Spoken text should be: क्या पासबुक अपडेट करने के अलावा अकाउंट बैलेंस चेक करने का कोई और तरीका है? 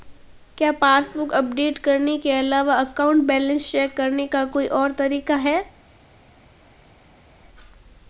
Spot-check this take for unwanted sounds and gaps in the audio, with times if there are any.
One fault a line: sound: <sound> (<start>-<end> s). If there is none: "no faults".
no faults